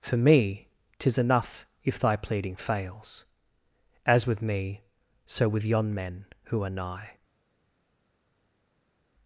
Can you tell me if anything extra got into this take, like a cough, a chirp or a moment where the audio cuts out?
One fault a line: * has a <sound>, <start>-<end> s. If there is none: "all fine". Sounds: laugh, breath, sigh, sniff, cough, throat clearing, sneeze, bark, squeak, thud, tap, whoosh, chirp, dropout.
all fine